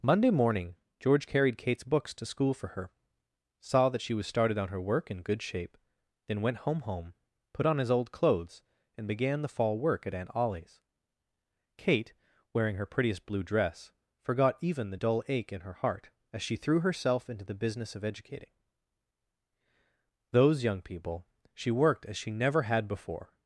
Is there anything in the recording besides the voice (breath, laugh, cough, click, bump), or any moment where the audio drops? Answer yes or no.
no